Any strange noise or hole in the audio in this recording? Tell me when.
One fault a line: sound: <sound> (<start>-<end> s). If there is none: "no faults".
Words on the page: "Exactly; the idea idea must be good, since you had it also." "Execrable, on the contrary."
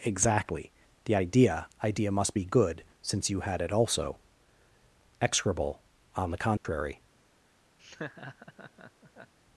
sound: dropout (6.6-6.6 s)
sound: laugh (7.8-9.3 s)